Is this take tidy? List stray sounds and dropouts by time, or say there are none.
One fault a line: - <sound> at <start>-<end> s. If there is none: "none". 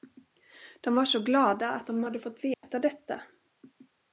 - dropout at 2.5-2.6 s